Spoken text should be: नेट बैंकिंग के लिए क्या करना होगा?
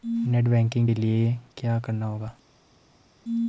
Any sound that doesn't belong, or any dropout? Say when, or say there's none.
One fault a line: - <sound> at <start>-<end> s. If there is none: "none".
none